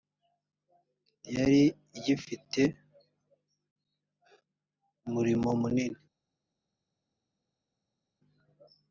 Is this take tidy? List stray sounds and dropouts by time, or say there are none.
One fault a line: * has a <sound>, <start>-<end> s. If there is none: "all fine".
all fine